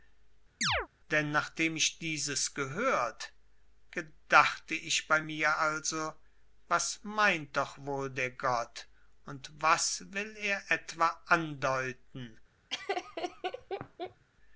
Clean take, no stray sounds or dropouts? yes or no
no